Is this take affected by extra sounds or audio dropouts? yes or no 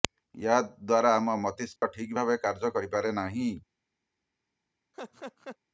yes